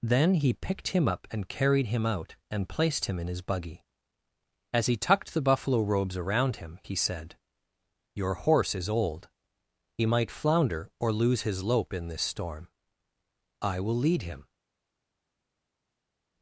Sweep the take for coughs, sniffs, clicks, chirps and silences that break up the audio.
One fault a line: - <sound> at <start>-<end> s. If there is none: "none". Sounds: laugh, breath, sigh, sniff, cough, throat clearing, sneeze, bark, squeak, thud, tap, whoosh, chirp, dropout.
none